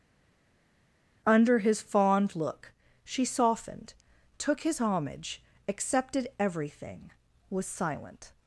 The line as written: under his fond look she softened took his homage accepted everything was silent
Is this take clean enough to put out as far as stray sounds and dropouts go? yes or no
yes